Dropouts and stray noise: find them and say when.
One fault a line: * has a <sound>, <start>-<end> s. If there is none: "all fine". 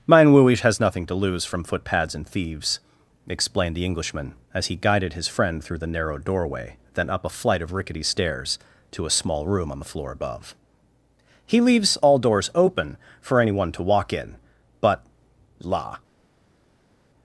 all fine